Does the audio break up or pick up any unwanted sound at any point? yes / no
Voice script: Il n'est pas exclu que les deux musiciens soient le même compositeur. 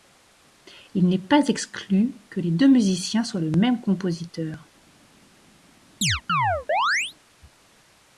yes